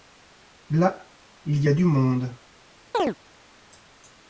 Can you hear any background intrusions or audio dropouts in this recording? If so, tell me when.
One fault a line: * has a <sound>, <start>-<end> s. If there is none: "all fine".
* has a chirp, 2.9-3.2 s